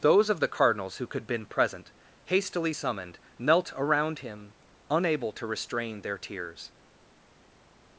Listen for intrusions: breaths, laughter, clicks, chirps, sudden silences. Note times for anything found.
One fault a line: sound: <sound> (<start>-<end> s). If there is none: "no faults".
no faults